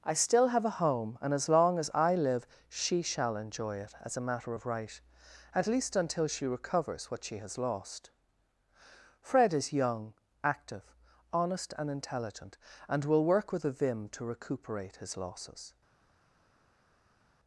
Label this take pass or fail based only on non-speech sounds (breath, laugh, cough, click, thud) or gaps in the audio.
pass